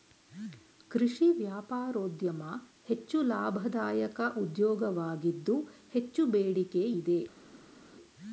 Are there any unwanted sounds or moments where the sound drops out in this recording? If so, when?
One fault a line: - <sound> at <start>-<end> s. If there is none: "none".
none